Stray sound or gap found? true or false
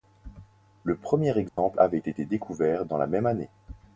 true